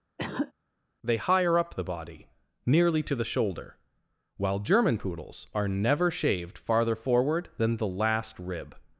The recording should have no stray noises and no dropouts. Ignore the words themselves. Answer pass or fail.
fail